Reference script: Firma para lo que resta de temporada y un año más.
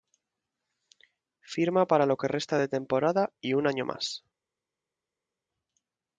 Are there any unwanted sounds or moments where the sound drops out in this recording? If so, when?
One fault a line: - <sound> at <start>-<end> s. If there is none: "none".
none